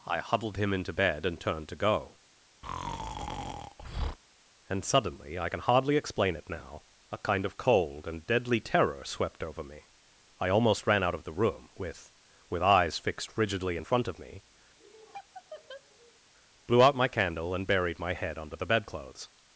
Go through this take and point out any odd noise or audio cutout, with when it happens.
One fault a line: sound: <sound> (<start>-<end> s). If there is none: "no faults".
sound: breath (2.6-4.2 s)
sound: laugh (14.8-16.2 s)